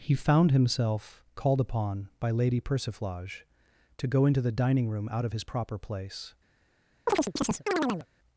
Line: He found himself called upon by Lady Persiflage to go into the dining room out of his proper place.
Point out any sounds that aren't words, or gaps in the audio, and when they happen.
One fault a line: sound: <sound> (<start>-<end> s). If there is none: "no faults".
sound: chirp (7.1-8.1 s)